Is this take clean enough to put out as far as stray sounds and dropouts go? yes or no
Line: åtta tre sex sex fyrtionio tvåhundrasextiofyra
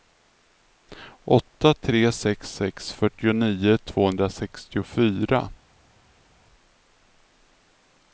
yes